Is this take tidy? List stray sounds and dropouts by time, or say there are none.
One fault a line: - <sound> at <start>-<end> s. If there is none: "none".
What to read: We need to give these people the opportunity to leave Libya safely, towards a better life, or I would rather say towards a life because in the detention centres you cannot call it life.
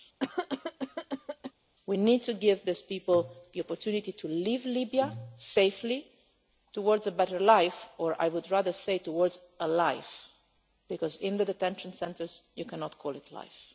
- cough at 0.2-1.5 s